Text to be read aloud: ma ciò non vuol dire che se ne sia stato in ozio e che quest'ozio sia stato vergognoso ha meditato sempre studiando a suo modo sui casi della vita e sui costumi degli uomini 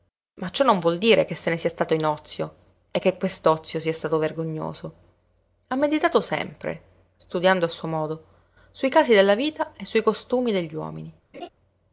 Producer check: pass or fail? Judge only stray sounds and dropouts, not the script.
fail